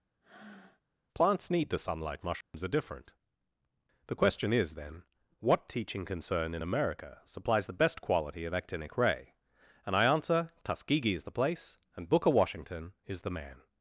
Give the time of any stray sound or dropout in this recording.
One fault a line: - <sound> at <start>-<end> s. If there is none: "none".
- breath at 0.2-0.8 s
- dropout at 2.4-2.5 s